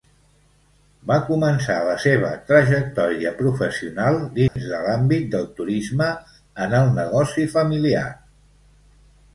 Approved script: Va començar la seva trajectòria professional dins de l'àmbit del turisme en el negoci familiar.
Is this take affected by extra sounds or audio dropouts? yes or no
yes